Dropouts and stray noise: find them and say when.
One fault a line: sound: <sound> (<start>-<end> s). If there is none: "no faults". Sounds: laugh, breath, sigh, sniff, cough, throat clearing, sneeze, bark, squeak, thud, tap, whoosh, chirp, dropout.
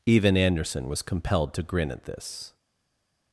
no faults